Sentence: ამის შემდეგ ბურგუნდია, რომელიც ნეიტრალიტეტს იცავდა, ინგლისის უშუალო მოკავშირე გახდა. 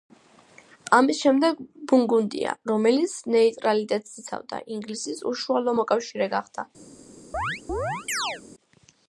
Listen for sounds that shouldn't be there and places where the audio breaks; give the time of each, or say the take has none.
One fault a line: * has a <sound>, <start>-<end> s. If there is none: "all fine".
* has a chirp, 7.3-8.4 s